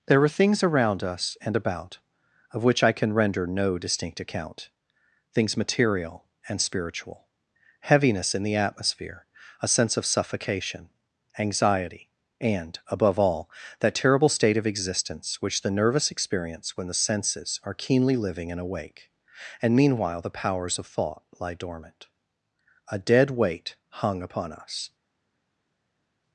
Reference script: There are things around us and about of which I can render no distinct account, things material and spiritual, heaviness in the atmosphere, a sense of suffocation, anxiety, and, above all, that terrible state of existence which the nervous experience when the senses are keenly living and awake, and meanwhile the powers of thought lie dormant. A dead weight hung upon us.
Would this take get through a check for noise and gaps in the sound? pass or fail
pass